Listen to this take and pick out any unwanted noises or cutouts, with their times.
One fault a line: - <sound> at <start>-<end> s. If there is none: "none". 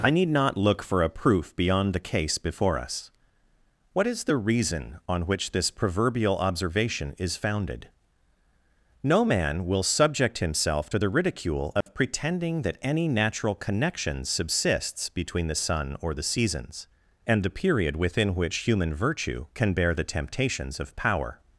- dropout at 11.8-11.9 s